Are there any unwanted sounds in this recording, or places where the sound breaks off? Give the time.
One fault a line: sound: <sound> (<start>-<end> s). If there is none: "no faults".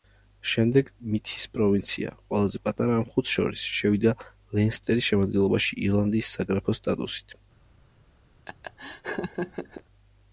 sound: laugh (8.5-9.8 s)